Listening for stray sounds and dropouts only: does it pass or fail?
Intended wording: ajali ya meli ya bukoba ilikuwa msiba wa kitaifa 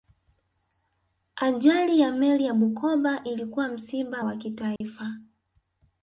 fail